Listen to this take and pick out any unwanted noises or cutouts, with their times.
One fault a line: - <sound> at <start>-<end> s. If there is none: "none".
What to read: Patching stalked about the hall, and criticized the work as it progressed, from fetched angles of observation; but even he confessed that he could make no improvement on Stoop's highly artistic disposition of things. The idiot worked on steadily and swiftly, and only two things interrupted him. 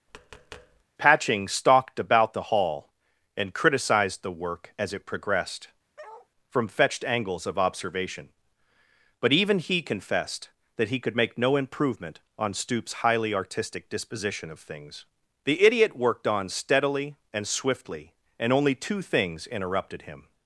- tap at 0.1-0.8 s
- bark at 6.0-6.3 s